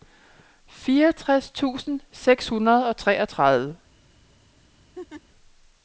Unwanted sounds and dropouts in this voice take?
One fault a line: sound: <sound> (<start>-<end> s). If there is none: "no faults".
sound: laugh (4.9-5.2 s)